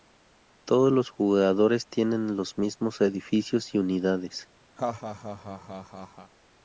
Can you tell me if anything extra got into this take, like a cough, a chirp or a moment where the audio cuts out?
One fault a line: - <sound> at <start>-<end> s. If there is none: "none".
- laugh at 4.8-6.3 s